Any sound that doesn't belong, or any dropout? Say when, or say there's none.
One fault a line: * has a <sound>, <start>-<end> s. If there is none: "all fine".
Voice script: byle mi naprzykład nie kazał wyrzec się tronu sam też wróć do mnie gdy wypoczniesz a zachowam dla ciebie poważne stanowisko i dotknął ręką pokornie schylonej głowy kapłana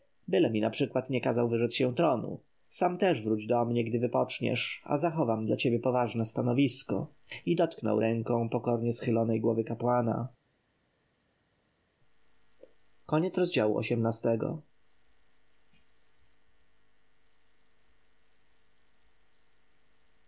all fine